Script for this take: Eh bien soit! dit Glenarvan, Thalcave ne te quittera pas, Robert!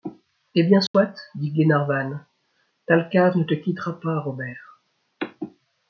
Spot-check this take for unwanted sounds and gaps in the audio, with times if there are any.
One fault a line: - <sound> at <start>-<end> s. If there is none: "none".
- dropout at 0.9-0.9 s